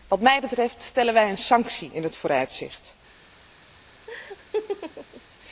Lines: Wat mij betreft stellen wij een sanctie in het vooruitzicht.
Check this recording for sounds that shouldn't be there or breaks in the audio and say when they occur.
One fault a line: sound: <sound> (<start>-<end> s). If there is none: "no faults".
sound: laugh (4.1-5.2 s)